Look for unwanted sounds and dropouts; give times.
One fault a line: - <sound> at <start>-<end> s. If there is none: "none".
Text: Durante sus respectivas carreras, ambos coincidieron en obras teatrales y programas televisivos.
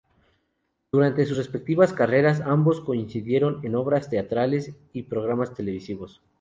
none